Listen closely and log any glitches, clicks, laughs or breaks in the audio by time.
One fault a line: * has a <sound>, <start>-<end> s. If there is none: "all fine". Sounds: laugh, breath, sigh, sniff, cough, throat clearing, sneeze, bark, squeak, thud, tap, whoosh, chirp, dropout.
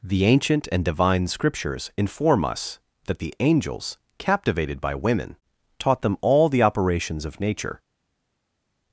all fine